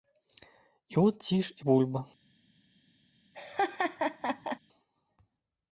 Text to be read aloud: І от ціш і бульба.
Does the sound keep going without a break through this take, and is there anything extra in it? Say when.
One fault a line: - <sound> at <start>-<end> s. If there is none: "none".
- laugh at 3.3-4.6 s